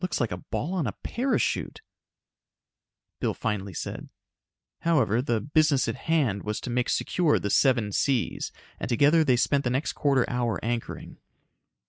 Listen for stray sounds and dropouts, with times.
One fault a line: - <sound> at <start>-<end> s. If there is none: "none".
none